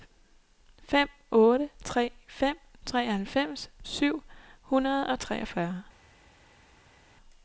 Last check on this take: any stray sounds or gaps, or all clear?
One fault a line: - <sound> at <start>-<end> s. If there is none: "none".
none